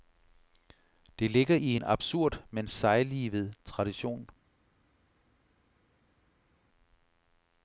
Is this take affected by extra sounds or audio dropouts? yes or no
no